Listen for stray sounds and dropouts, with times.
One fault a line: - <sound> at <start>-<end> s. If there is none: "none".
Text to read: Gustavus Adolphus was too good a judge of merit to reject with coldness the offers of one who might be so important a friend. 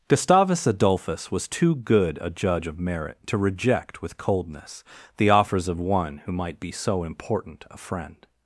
none